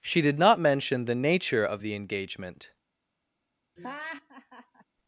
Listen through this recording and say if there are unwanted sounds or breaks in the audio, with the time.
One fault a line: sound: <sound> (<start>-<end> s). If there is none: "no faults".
sound: laugh (3.8-4.8 s)